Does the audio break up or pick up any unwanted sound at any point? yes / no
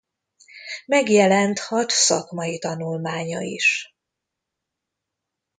no